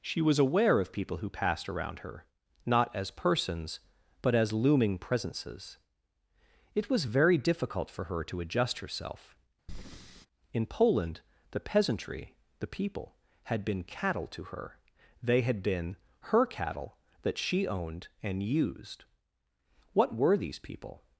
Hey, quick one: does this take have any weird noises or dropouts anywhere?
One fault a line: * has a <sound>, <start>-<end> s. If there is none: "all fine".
* has a breath, 9.7-10.3 s